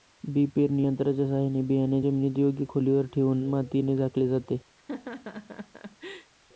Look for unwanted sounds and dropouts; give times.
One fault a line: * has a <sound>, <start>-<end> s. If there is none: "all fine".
* has a laugh, 4.8-6.3 s